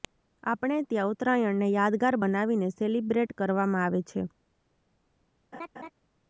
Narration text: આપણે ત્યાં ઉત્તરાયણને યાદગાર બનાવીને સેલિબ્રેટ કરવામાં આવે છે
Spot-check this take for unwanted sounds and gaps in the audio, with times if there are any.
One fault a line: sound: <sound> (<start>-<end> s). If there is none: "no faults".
sound: laugh (5.5-5.9 s)